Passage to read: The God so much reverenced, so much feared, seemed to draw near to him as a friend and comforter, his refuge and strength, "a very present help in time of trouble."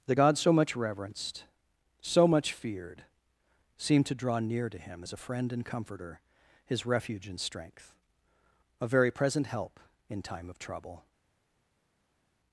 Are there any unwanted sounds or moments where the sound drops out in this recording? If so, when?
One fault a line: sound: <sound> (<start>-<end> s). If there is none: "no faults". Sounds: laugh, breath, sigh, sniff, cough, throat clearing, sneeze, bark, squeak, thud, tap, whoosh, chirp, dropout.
no faults